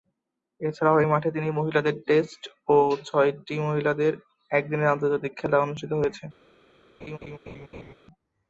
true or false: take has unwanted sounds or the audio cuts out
true